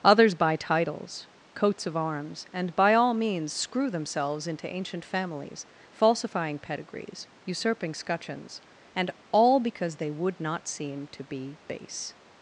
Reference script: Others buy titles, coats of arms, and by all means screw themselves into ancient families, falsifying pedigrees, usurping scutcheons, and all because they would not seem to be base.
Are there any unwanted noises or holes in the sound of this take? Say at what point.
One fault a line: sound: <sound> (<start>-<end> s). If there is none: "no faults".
no faults